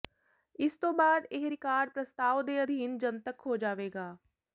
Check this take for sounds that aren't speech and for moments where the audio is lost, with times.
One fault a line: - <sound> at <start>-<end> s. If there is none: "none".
none